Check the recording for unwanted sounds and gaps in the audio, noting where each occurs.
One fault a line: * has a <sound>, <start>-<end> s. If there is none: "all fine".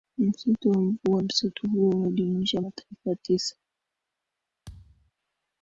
* has a thud, 4.7-5.1 s